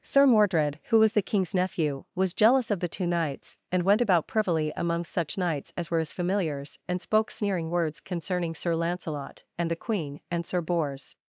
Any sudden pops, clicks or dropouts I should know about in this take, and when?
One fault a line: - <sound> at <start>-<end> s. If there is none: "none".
none